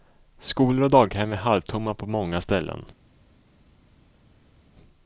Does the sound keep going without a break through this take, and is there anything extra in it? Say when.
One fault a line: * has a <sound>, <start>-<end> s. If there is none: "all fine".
all fine